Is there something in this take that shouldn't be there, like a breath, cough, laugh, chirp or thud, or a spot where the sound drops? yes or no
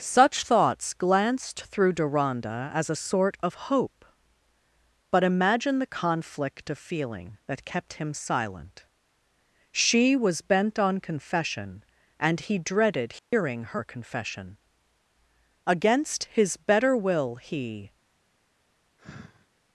yes